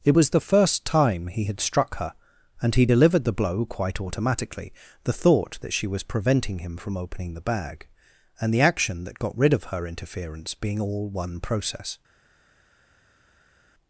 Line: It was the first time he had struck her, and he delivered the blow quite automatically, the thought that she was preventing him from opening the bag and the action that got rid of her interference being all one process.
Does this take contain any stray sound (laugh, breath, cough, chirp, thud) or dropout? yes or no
no